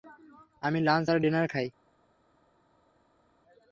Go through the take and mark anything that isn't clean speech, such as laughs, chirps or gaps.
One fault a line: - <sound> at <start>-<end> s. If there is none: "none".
none